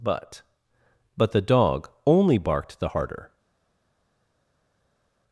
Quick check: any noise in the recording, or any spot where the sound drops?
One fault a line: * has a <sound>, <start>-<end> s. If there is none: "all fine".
all fine